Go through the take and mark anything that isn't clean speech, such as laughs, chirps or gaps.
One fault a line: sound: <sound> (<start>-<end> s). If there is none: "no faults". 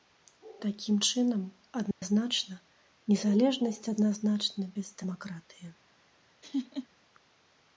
sound: dropout (1.9-2.0 s)
sound: laugh (6.4-6.9 s)